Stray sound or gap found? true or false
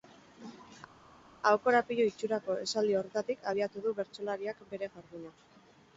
false